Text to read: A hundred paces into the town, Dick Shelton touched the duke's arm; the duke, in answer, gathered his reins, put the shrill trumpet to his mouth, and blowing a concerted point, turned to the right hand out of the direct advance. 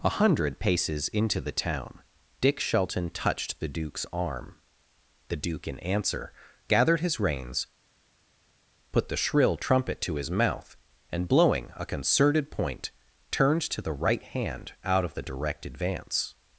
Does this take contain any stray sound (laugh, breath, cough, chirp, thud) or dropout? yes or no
no